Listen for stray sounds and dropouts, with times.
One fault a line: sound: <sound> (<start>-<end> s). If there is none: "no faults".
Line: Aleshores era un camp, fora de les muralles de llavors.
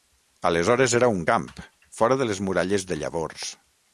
no faults